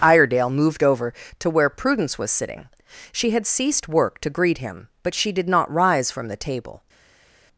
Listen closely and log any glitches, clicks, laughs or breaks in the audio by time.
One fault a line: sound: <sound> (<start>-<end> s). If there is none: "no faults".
no faults